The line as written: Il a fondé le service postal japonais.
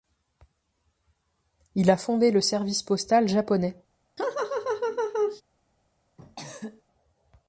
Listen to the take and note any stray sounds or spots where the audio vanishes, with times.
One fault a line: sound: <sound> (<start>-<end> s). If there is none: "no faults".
sound: laugh (4.2-5.4 s)
sound: cough (6.2-6.8 s)